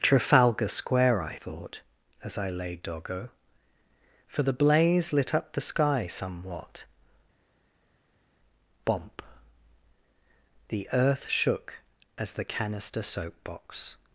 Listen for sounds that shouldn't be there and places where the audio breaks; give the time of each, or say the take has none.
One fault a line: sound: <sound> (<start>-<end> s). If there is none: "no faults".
no faults